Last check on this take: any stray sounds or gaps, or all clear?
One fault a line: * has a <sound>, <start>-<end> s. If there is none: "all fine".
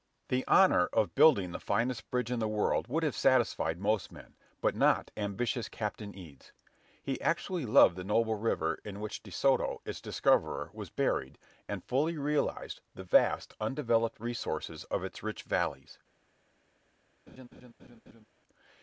* has a laugh, 17.3-18.3 s